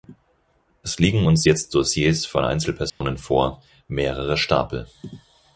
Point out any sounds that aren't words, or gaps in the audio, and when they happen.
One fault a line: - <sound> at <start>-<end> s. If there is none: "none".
- dropout at 2.9-3.0 s